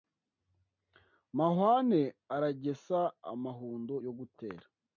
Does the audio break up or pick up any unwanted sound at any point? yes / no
no